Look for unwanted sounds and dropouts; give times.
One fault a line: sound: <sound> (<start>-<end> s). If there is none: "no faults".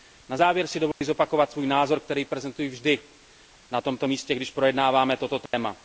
sound: dropout (0.9-1.0 s)
sound: dropout (5.5-5.5 s)